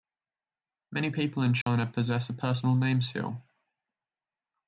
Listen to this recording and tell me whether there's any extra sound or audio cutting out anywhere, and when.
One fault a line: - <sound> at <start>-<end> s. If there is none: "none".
- dropout at 1.6-1.7 s